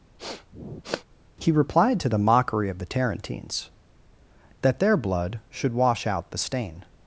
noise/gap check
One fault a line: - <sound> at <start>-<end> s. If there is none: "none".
- sniff at 0.2-1.0 s